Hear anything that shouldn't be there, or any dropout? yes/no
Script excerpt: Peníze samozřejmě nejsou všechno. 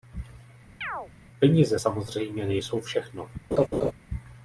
yes